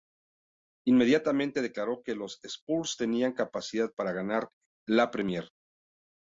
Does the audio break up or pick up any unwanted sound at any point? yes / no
no